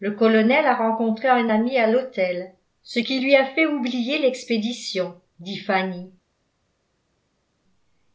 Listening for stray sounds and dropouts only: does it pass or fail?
pass